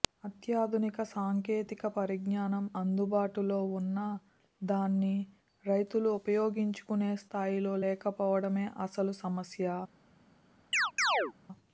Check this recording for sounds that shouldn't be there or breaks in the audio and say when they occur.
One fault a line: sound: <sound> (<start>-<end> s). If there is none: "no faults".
sound: chirp (10.7-11.3 s)